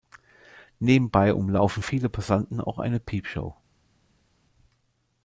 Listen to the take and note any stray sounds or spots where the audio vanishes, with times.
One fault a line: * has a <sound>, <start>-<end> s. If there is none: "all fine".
all fine